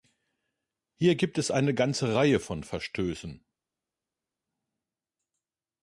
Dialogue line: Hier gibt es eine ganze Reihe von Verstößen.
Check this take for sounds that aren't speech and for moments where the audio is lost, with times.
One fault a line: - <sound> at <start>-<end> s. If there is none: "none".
none